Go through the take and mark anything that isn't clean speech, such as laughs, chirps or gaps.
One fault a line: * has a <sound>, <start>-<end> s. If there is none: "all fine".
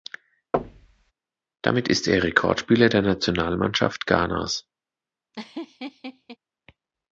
* has a thud, 0.5-1.1 s
* has a laugh, 5.3-6.4 s